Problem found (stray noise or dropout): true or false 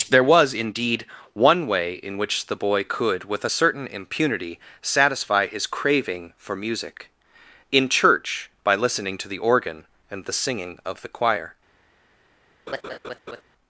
true